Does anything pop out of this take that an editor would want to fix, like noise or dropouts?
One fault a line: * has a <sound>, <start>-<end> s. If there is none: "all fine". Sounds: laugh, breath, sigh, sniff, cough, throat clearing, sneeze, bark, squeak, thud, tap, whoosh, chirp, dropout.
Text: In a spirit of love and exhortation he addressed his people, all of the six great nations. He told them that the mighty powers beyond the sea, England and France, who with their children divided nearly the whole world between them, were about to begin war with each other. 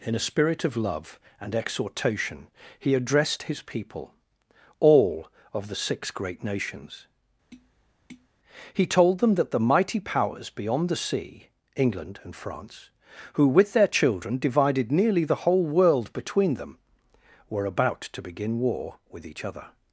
* has a tap, 7.5-8.3 s